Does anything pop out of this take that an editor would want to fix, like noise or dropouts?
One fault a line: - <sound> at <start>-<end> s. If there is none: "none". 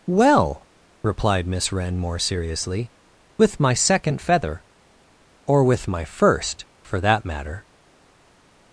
none